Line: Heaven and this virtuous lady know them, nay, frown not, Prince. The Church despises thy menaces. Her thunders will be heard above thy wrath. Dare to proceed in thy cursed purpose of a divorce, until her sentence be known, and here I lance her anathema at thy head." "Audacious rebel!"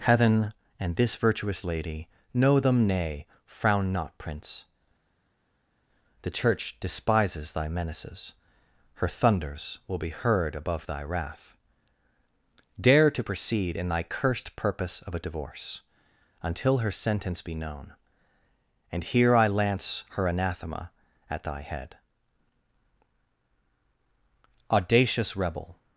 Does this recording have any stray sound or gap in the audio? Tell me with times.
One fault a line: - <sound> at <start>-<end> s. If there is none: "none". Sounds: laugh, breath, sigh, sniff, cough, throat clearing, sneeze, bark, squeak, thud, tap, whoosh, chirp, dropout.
none